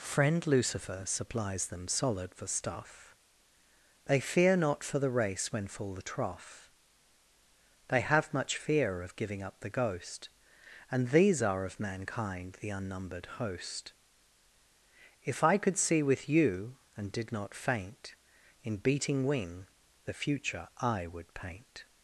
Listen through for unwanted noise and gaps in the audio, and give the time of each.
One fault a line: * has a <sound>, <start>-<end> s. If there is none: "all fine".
all fine